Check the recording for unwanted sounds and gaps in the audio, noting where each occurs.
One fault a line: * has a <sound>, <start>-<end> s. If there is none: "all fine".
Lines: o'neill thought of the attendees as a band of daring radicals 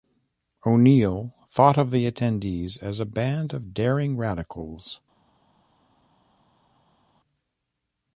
all fine